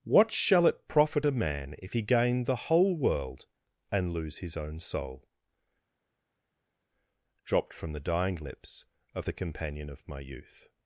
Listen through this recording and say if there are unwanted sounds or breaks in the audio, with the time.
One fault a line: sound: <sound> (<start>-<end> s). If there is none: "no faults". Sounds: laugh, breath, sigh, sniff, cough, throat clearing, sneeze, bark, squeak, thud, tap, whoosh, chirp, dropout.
no faults